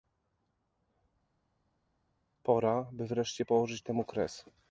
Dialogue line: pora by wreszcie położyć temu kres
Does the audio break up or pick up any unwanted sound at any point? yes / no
no